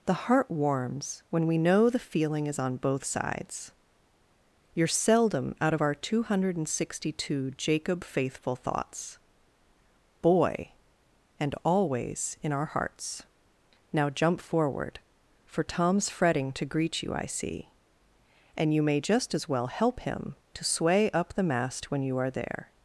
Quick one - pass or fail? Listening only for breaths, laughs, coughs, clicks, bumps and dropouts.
pass